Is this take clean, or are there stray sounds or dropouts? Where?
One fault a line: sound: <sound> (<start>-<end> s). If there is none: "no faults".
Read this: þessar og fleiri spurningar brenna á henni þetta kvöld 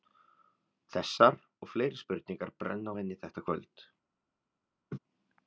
sound: laugh (4.9-5.0 s)